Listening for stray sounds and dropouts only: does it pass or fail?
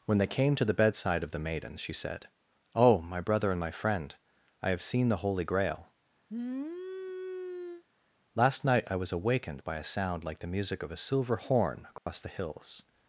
fail